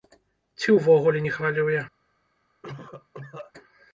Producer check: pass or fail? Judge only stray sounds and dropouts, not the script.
fail